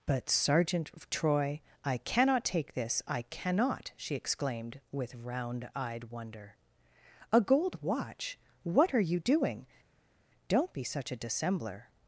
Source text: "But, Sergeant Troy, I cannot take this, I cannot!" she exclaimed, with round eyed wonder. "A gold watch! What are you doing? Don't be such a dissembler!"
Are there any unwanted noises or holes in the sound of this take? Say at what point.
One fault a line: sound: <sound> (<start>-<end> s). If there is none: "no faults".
no faults